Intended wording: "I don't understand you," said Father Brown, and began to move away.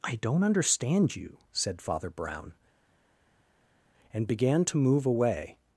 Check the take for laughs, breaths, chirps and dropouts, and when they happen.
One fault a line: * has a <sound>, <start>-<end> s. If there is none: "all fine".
all fine